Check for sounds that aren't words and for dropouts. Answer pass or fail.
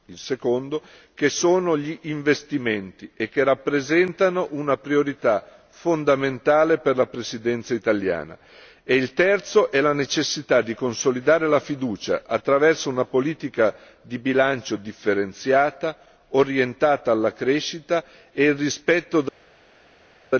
pass